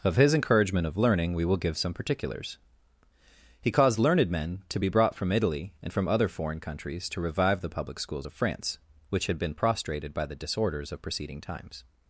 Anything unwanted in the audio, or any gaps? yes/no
no